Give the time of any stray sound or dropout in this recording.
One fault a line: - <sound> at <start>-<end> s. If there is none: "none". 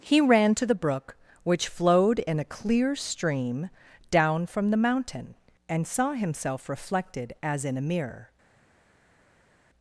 none